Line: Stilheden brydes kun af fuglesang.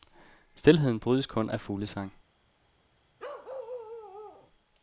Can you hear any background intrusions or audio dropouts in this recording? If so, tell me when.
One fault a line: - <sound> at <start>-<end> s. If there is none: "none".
- bark at 3.2-4.5 s